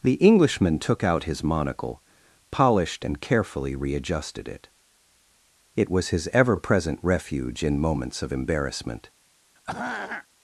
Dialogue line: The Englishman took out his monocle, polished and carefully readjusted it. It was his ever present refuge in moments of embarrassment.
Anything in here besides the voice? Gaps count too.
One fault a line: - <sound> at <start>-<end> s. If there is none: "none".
- throat clearing at 9.6-10.3 s